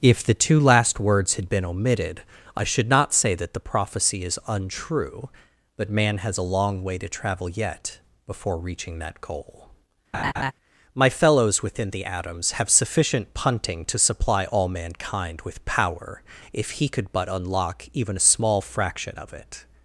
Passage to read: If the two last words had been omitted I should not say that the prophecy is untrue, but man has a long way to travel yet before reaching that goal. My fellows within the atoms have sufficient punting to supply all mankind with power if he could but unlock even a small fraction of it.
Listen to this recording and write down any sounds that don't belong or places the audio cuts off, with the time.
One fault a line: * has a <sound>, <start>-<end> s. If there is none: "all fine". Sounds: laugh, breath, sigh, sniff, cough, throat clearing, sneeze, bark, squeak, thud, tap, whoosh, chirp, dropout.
* has a laugh, 10.1-10.5 s